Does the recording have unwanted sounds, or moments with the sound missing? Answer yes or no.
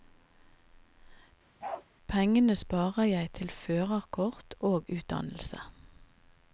yes